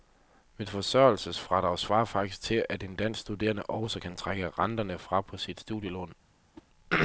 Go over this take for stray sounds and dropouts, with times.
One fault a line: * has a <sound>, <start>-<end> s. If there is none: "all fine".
* has a whoosh, 6.5-6.7 s